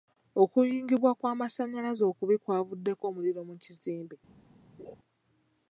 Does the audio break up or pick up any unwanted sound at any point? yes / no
yes